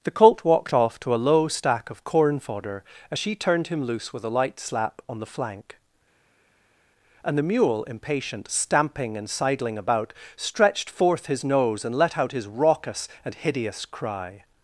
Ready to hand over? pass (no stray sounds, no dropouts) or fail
pass